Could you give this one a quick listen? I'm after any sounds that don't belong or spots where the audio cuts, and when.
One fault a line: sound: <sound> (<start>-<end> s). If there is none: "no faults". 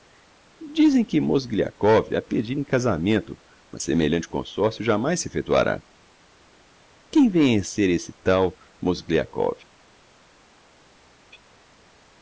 no faults